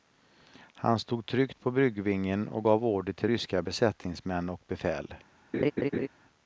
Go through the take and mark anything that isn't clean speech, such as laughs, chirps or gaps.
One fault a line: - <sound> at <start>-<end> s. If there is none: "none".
- laugh at 5.5-6.1 s